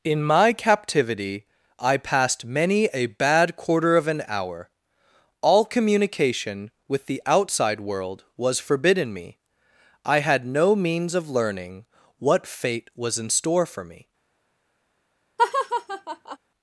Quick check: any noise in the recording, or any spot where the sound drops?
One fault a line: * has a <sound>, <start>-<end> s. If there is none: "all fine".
* has a laugh, 15.4-16.4 s